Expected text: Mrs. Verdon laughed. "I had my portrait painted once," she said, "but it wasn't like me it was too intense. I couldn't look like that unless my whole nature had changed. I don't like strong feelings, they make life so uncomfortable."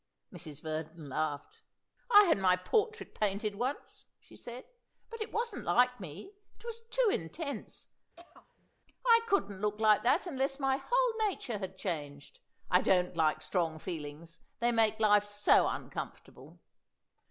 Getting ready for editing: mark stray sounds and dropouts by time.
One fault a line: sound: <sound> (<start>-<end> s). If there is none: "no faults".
sound: throat clearing (8.2-8.7 s)